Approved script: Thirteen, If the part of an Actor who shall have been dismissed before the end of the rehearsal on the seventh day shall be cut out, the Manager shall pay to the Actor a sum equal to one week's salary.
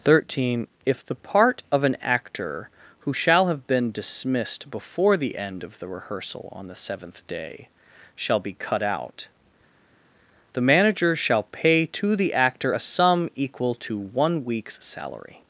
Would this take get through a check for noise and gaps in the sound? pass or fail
pass